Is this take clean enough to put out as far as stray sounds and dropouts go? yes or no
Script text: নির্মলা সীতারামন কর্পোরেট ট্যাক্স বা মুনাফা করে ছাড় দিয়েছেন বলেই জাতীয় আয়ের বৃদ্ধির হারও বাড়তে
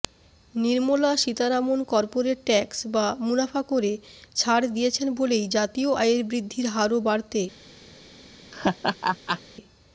no